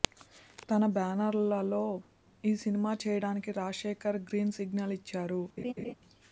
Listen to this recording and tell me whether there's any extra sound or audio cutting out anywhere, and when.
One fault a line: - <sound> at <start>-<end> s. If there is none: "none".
- laugh at 5.6-5.9 s